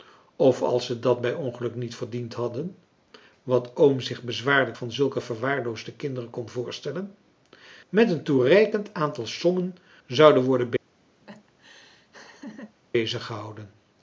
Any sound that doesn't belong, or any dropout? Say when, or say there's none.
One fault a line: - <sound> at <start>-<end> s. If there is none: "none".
- laugh at 11.2-12.8 s